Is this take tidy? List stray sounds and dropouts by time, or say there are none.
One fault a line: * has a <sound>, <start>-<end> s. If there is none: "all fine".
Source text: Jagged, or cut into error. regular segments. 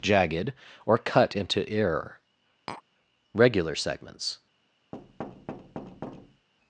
* has a tap, 2.7-2.8 s
* has a thud, 4.9-6.5 s